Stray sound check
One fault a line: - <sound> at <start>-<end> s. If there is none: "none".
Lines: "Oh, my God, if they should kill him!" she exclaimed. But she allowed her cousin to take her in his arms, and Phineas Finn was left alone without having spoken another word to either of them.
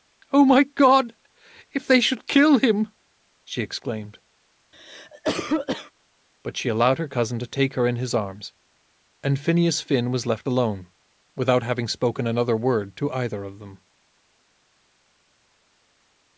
- cough at 4.7-5.9 s